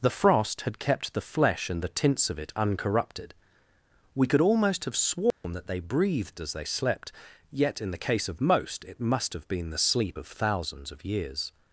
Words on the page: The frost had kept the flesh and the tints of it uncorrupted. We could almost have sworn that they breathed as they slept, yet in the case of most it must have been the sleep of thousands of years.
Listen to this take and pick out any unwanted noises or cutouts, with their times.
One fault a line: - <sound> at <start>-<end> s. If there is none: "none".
- dropout at 5.3-5.4 s